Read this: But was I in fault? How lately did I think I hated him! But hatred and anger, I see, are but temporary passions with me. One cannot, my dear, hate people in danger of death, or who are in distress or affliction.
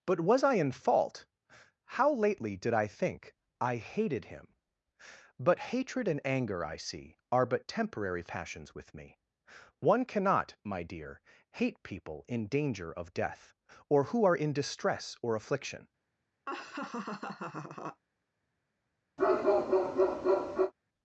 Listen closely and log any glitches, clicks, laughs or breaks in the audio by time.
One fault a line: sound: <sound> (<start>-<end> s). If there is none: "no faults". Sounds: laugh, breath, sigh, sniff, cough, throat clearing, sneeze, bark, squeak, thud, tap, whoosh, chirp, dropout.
sound: laugh (16.5-18.0 s)
sound: bark (19.2-20.7 s)